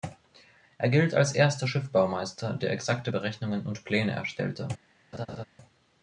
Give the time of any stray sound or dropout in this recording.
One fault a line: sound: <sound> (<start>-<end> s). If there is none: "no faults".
sound: laugh (5.1-5.4 s)